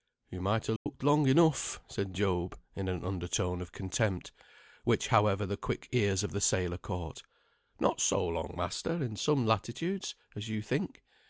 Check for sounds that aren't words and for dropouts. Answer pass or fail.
fail